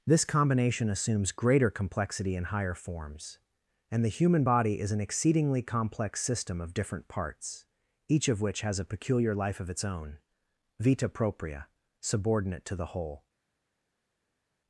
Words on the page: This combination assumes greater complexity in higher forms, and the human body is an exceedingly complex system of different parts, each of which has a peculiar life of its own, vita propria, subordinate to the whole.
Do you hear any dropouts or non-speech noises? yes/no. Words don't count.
no